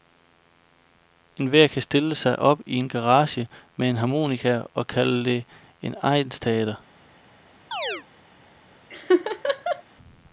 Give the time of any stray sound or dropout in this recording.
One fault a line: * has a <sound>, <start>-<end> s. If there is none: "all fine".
* has a chirp, 7.7-8.0 s
* has a laugh, 8.9-9.8 s